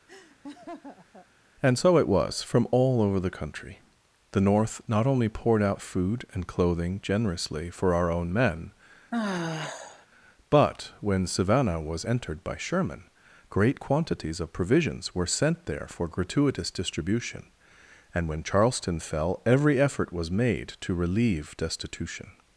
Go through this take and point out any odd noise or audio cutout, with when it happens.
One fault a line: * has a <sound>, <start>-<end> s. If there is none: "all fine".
* has a laugh, 0.1-1.3 s
* has a sigh, 9.1-10.1 s